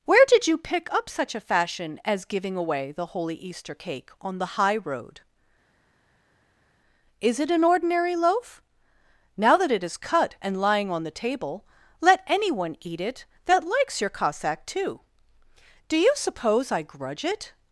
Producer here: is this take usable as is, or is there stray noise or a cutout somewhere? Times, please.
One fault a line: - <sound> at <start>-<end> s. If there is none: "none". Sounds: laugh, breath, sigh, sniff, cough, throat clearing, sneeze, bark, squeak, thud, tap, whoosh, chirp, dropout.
none